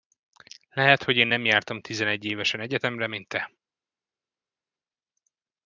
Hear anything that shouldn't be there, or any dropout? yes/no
no